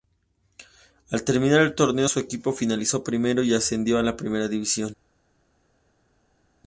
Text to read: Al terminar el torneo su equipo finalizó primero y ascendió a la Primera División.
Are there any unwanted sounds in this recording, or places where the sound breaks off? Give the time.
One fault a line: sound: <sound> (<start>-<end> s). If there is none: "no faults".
no faults